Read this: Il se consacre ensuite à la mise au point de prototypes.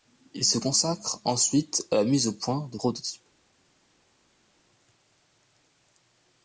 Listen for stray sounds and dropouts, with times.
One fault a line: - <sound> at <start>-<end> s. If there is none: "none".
none